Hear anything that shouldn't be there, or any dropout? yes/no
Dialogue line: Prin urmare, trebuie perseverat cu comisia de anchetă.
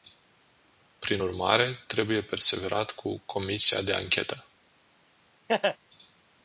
yes